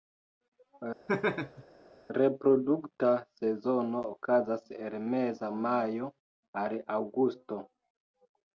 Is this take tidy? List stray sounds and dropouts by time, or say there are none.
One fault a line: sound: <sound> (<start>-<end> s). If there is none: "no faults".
sound: laugh (1.1-1.6 s)